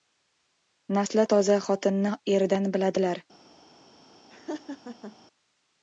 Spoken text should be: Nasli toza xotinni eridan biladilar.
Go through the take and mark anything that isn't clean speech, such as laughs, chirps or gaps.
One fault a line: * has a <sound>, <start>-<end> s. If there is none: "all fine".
* has a laugh, 4.3-5.2 s